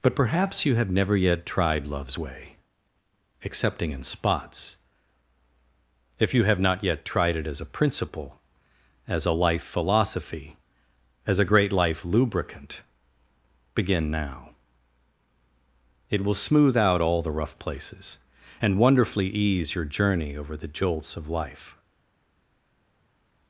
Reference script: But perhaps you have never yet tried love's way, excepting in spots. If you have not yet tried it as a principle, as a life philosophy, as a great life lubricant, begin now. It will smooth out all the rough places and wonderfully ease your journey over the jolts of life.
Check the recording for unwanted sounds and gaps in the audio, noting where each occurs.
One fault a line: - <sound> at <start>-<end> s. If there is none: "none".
none